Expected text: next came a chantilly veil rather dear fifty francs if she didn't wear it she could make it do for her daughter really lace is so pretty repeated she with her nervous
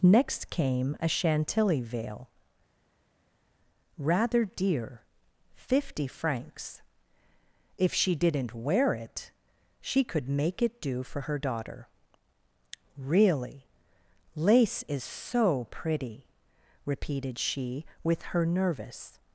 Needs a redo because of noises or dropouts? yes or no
no